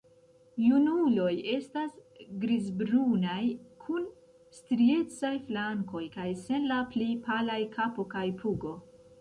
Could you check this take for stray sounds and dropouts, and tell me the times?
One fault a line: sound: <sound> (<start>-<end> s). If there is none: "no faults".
no faults